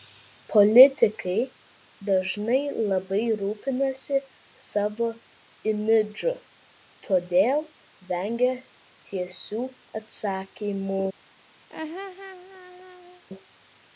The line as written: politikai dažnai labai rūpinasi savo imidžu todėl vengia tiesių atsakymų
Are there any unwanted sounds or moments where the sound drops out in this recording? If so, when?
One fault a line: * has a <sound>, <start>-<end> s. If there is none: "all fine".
* has a laugh, 11.7-13.2 s